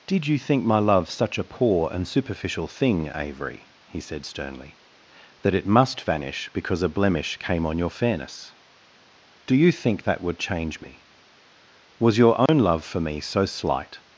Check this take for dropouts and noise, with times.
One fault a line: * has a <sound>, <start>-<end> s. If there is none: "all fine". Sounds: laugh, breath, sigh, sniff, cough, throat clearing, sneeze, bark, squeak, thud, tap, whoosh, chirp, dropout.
* has a dropout, 12.5-12.5 s